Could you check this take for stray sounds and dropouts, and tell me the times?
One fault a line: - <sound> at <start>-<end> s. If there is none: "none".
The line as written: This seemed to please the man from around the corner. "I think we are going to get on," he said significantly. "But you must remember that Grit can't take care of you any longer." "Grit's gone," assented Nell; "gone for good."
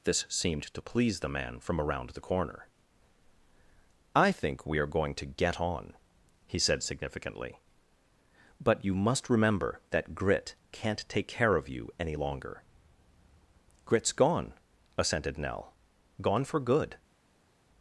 none